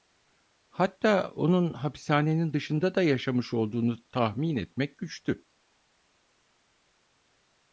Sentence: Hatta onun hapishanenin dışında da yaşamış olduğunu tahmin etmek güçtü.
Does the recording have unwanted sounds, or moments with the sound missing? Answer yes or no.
no